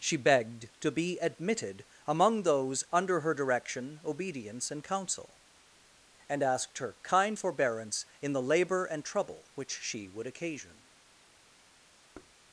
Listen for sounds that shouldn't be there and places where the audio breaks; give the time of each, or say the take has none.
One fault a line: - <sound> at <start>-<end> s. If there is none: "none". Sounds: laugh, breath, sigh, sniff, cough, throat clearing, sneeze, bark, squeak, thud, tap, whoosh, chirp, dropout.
- thud at 12.1-12.4 s